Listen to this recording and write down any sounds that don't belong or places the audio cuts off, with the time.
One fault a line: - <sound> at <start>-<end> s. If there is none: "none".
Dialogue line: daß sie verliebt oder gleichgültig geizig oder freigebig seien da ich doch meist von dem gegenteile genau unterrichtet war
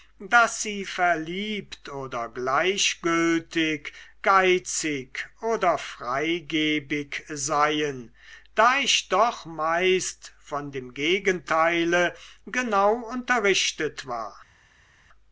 none